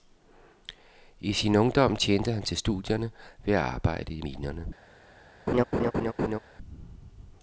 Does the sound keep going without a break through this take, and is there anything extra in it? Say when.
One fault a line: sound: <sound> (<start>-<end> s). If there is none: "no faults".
sound: laugh (5.5-6.4 s)